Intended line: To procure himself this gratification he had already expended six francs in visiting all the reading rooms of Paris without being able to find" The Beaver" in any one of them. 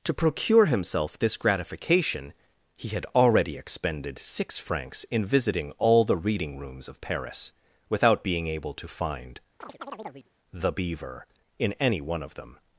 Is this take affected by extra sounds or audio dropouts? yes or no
yes